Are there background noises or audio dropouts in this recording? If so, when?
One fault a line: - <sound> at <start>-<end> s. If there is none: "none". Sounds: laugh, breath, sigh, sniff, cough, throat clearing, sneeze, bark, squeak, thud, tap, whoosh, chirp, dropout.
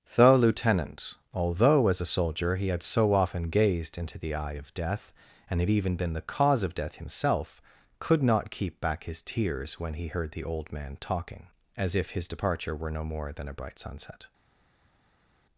none